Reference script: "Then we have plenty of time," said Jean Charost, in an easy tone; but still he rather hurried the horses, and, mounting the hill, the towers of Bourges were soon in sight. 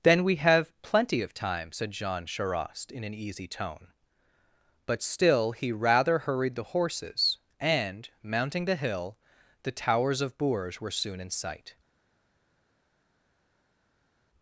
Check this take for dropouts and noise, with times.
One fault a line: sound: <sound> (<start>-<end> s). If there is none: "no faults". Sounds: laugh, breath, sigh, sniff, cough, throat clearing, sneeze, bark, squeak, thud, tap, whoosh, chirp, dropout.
no faults